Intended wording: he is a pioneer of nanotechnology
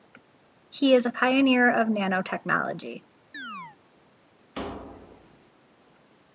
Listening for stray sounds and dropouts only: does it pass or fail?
fail